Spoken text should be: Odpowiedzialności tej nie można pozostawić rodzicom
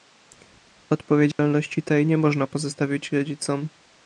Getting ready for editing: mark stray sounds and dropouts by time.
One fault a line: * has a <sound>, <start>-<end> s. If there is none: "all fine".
* has a dropout, 1.3-1.4 s